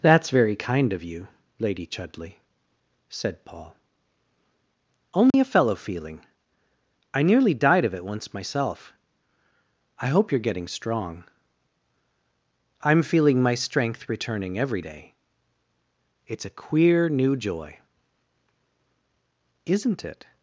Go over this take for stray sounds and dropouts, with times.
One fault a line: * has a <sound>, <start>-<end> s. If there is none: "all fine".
* has a dropout, 5.3-5.3 s